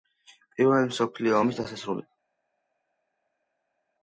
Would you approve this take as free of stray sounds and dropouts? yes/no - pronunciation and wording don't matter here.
yes